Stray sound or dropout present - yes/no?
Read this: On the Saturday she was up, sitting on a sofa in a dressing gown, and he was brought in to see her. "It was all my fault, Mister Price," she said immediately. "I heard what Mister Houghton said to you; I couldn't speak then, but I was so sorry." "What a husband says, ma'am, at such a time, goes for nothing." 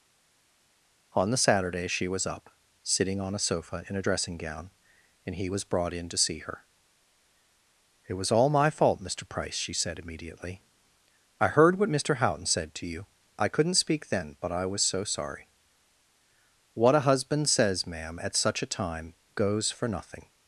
no